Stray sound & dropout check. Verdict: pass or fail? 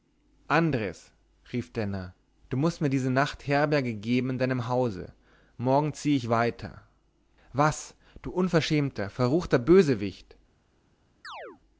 fail